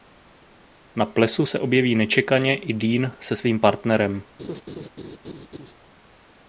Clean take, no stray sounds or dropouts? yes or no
no